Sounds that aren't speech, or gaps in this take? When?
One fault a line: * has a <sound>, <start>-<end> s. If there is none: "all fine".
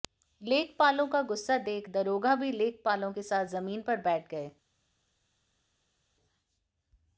all fine